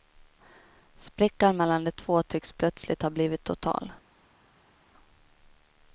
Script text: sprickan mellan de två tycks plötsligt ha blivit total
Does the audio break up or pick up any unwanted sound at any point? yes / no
no